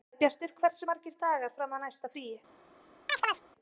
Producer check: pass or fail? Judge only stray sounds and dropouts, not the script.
fail